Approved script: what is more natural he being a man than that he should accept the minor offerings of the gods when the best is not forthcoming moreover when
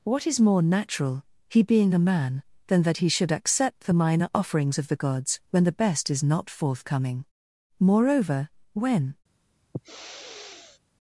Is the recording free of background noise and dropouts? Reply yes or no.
no